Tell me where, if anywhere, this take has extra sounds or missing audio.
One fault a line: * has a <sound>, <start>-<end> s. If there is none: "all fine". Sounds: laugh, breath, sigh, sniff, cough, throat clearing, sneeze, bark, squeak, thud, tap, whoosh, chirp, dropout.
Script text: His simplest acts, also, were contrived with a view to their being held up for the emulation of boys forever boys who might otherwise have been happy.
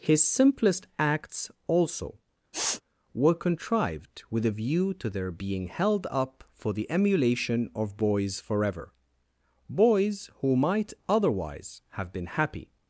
* has a sniff, 2.5-2.8 s